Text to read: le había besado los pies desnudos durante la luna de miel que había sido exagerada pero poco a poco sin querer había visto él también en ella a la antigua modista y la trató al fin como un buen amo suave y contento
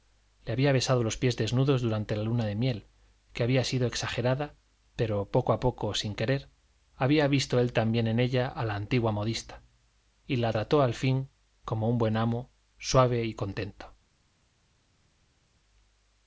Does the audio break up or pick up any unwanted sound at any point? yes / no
no